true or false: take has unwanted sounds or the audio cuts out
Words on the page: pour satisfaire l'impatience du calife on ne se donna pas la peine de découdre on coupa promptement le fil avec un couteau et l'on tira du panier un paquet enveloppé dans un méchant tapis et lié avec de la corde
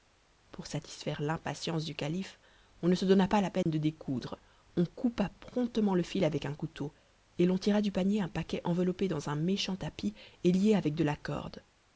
true